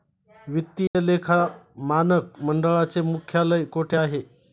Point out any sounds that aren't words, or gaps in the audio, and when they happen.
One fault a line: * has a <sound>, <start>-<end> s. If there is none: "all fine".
* has a dropout, 0.9-0.9 s